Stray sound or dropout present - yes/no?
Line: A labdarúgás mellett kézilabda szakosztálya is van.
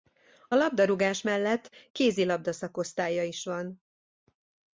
no